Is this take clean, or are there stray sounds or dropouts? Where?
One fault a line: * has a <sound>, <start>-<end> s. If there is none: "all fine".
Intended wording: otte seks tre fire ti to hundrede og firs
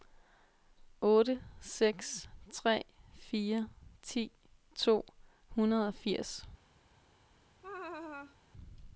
* has a laugh, 7.6-8.4 s